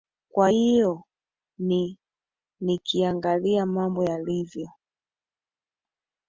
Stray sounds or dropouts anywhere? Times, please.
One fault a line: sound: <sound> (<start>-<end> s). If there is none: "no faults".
no faults